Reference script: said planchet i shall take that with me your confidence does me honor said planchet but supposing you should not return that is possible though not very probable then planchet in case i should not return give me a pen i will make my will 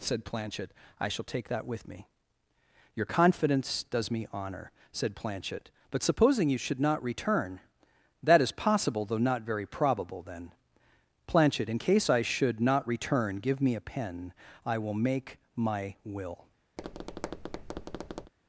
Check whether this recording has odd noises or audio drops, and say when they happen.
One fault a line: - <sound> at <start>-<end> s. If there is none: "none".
- tap at 16.8-18.3 s